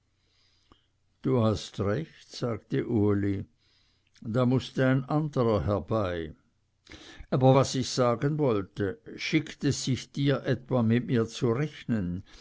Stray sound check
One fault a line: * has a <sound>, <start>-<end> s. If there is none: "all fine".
all fine